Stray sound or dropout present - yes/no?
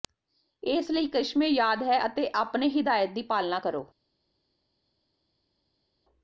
no